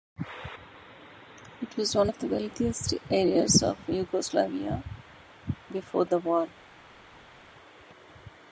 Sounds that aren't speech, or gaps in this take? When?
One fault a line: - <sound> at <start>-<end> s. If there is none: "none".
none